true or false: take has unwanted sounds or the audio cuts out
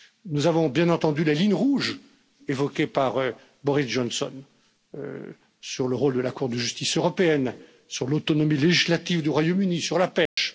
true